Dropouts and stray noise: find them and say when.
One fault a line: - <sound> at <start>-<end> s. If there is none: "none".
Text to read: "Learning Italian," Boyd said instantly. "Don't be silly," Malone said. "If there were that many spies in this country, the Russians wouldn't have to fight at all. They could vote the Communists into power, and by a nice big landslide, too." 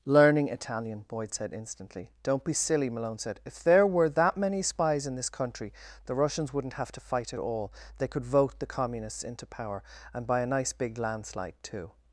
none